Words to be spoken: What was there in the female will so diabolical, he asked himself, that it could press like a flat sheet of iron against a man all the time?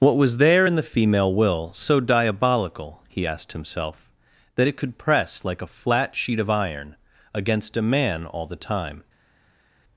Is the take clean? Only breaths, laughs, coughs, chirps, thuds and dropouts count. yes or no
yes